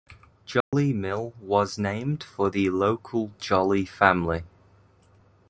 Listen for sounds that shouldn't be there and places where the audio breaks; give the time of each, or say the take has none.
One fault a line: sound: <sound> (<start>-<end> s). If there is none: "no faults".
sound: dropout (0.6-0.7 s)